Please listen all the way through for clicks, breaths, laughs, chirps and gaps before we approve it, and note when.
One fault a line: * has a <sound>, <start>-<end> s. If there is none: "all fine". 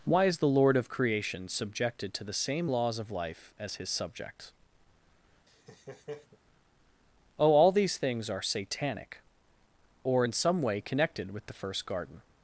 * has a laugh, 5.5-6.4 s